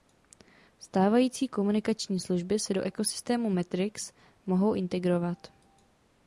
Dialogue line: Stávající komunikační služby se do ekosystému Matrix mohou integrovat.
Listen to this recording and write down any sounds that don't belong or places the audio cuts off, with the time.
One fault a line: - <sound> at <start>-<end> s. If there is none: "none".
none